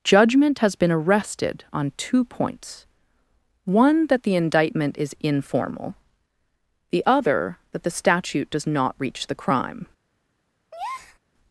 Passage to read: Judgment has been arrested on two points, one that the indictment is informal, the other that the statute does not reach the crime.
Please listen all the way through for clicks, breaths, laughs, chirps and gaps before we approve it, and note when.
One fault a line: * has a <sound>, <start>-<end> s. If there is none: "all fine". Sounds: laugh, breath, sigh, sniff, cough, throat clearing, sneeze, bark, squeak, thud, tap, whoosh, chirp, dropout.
* has a breath, 10.7-11.2 s